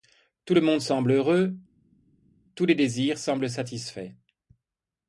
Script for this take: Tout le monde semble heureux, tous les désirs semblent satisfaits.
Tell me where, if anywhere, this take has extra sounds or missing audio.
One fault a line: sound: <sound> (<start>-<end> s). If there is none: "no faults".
no faults